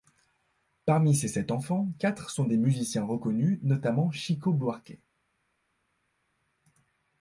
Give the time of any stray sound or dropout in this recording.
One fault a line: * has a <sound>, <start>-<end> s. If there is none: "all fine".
all fine